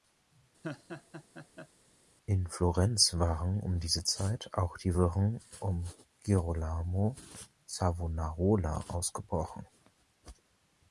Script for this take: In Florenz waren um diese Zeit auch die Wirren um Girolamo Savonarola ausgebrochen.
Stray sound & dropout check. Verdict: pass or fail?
fail